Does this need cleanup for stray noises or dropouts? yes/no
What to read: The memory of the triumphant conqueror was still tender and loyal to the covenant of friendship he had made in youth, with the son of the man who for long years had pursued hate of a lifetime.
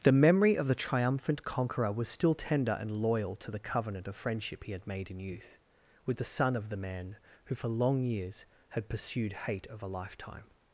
no